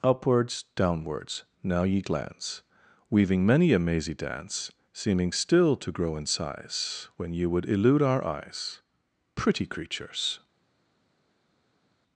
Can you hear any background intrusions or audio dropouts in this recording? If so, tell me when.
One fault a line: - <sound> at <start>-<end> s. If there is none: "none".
none